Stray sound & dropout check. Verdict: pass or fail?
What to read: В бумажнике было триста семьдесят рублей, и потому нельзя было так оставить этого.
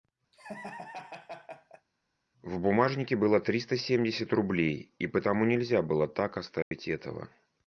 fail